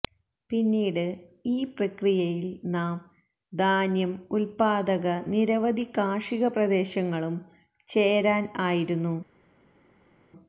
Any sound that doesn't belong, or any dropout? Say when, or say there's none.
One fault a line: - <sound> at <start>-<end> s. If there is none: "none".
none